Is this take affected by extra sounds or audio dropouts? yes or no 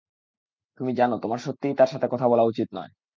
no